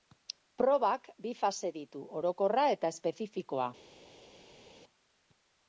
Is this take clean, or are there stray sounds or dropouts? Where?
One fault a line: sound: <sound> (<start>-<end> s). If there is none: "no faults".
no faults